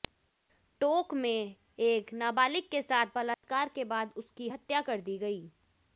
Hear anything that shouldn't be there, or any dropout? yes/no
yes